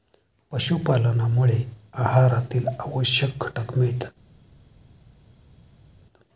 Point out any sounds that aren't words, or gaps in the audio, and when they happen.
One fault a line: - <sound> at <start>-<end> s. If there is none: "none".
none